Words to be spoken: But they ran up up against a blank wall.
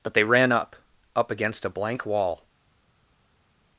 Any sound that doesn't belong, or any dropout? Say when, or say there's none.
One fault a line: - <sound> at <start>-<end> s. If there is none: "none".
none